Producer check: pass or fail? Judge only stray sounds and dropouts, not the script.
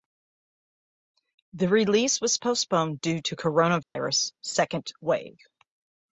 fail